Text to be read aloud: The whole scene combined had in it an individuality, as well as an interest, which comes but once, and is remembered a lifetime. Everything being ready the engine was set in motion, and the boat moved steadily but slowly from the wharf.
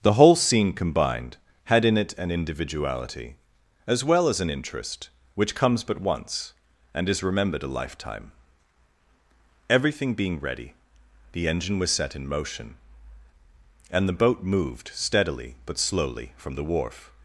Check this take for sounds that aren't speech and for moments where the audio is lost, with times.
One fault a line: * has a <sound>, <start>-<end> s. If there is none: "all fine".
all fine